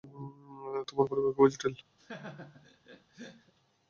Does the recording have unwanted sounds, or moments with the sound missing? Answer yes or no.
yes